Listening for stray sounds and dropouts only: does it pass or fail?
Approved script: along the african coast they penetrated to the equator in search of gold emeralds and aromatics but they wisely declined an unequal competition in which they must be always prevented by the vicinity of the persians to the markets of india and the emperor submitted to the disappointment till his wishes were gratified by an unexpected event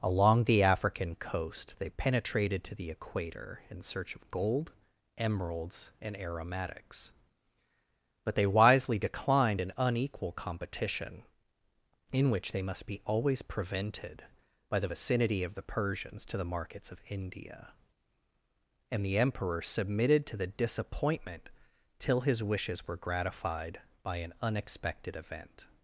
pass